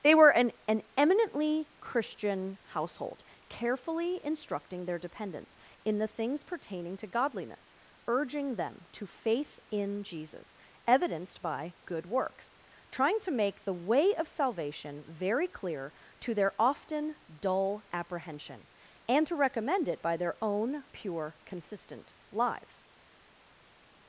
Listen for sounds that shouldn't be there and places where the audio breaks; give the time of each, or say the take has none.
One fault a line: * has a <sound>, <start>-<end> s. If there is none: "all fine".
all fine